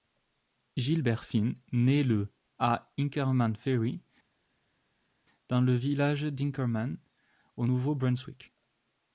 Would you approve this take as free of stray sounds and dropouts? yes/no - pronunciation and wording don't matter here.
yes